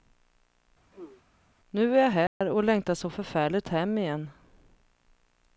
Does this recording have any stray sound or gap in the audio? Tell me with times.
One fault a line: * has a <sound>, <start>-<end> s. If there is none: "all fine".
* has a throat clearing, 0.9-1.2 s
* has a dropout, 2.3-2.4 s